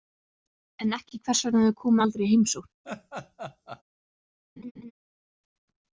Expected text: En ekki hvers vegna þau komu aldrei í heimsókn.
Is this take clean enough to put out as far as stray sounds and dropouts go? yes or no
no